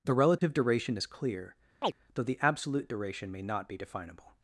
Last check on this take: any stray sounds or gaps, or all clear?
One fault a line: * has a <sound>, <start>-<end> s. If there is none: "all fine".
* has a dropout, 0.4-0.4 s
* has a chirp, 1.8-1.9 s